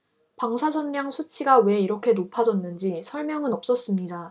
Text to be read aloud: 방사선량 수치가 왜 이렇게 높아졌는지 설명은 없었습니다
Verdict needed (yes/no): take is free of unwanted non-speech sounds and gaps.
yes